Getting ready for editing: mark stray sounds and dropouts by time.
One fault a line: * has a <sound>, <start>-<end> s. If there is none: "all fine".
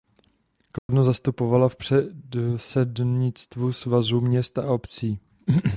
* has a dropout, 0.8-0.9 s